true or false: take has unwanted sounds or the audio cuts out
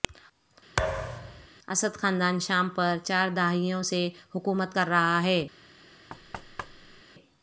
true